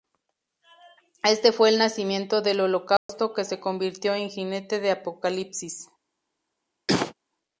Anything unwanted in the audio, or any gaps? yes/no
yes